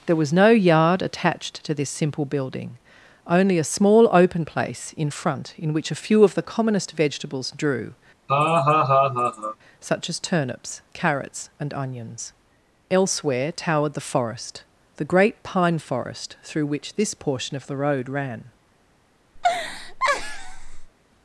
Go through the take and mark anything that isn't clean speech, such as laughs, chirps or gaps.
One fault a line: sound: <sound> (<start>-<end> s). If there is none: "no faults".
sound: laugh (8.3-9.6 s)
sound: laugh (19.4-20.9 s)